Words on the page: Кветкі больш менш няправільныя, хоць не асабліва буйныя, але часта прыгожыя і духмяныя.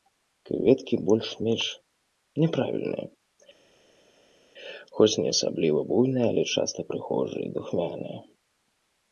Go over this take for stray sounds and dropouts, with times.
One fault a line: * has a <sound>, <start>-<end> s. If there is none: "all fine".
all fine